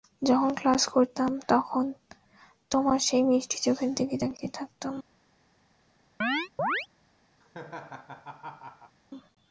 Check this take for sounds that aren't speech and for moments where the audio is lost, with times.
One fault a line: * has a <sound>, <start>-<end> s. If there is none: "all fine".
* has a chirp, 6.2-6.9 s
* has a laugh, 7.4-9.0 s